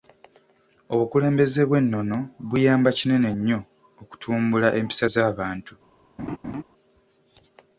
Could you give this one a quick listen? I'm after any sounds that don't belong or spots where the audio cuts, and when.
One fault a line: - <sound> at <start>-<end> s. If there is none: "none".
- laugh at 6.2-6.6 s